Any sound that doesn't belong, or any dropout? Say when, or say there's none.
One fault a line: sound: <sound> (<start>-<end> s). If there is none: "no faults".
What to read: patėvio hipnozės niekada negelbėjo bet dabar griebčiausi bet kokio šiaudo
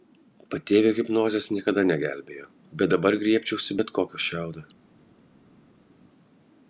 no faults